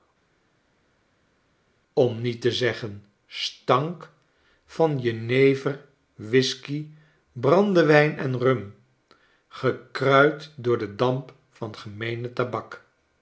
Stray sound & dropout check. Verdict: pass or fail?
pass